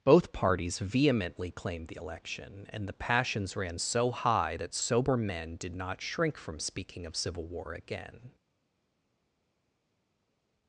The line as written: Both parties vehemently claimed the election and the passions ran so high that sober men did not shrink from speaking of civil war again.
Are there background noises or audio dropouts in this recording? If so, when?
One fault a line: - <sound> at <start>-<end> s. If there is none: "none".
none